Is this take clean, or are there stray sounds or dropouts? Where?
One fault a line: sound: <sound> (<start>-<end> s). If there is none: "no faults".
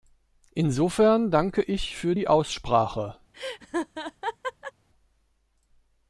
sound: laugh (3.3-4.7 s)